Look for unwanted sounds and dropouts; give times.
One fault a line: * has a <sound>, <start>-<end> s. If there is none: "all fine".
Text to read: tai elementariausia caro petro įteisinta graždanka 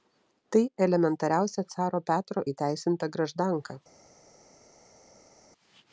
all fine